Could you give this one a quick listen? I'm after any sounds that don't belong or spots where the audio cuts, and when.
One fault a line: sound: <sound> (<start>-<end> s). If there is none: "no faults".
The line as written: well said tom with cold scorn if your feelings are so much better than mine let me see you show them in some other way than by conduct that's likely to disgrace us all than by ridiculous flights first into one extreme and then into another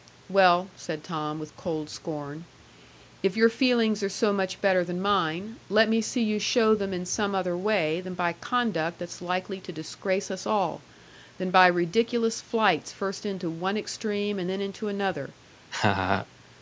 sound: laugh (15.7-16.3 s)